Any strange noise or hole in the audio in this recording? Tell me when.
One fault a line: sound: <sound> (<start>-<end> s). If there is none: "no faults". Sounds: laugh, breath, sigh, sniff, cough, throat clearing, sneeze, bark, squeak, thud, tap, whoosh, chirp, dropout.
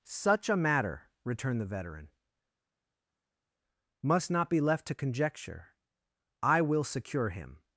no faults